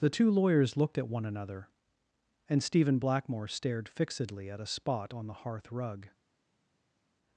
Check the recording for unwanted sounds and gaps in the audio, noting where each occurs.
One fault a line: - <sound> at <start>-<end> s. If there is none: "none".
none